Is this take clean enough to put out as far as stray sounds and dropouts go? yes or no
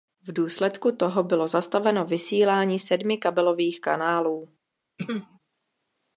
no